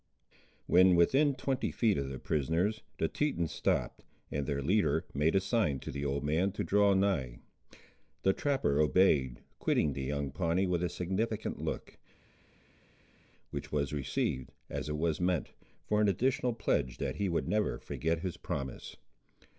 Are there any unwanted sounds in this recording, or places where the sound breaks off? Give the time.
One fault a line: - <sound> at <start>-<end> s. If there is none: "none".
none